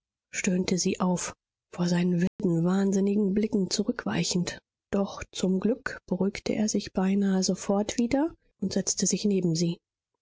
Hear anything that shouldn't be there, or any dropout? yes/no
yes